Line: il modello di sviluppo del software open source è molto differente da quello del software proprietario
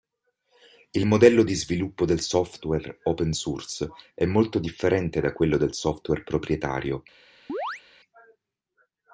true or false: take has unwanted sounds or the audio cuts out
true